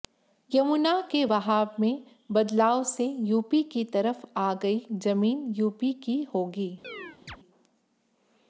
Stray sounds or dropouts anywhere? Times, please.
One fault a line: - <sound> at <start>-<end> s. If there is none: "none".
- chirp at 6.8-7.4 s